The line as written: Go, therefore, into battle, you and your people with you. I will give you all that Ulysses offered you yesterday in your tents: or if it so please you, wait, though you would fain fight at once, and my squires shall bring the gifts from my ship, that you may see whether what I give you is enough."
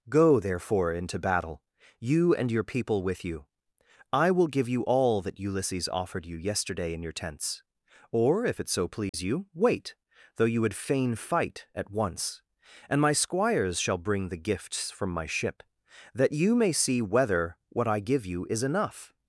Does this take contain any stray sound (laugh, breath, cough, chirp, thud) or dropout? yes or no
yes